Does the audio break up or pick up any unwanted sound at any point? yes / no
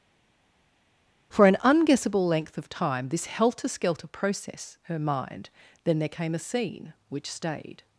no